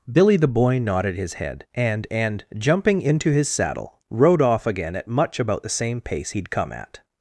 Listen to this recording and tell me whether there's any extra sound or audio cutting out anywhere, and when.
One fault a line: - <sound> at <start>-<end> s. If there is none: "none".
none